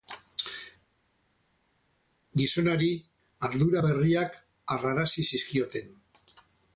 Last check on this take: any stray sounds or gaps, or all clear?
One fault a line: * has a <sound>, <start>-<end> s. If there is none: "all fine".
all fine